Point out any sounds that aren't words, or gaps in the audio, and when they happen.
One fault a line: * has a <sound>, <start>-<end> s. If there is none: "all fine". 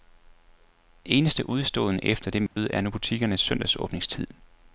* has a dropout, 2.5-2.6 s